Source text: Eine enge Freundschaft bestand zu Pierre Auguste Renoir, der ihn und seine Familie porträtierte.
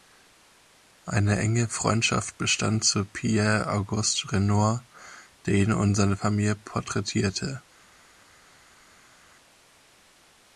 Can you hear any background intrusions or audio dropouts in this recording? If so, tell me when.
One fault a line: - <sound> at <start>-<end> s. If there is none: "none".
none